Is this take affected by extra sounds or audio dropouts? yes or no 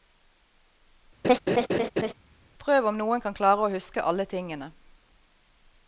yes